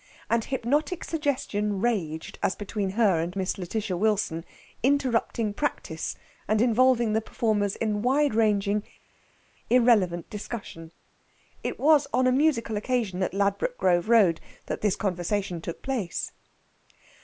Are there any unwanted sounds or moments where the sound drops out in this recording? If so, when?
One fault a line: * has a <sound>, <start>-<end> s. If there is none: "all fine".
all fine